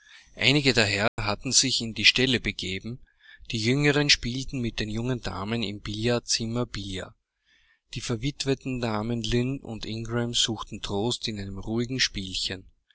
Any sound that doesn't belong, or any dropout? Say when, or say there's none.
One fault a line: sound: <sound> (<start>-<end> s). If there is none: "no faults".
sound: dropout (1.1-1.2 s)